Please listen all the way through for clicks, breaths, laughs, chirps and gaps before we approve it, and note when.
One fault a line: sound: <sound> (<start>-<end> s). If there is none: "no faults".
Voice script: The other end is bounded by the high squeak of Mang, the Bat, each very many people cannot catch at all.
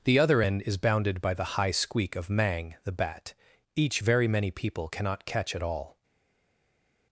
no faults